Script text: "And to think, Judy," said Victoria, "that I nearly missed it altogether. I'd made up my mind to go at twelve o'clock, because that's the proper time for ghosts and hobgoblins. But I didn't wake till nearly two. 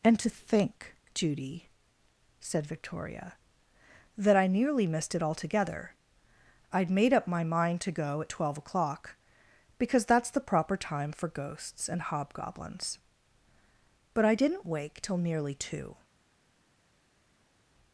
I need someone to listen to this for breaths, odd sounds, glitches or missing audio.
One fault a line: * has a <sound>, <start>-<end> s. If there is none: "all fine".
all fine